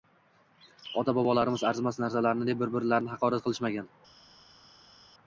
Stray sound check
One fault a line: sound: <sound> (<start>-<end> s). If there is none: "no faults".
no faults